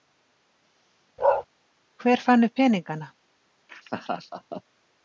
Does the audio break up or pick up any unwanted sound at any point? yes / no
yes